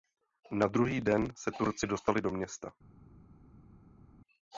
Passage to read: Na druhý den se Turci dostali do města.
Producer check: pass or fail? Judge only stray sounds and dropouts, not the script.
pass